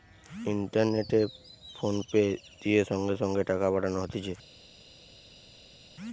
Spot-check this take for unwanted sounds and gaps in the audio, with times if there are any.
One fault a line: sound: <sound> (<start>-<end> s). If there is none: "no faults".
no faults